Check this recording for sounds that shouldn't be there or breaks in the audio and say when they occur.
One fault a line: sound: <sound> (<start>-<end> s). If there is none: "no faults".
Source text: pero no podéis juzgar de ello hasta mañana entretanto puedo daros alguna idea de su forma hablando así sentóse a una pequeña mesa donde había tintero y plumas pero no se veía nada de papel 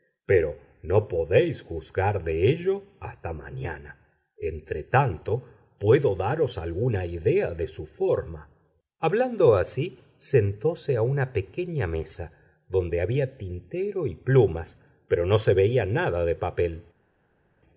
no faults